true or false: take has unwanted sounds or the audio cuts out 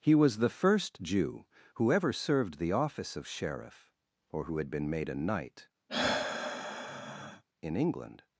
true